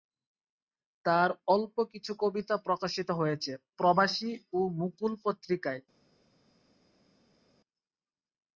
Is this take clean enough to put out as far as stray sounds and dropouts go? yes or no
yes